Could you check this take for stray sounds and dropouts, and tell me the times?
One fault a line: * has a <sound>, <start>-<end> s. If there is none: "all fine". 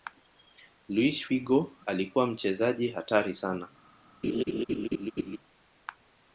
* has a laugh, 4.2-5.4 s